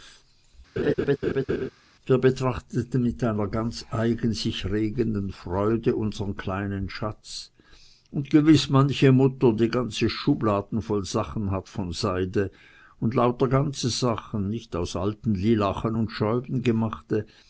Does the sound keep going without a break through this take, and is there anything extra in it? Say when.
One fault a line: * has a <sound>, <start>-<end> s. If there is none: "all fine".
* has a laugh, 0.8-1.7 s